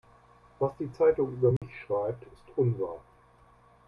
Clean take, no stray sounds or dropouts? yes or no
no